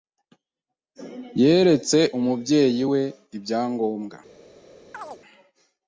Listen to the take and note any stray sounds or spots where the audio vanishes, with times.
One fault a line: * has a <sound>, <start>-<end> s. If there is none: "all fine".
* has a chirp, 4.9-5.2 s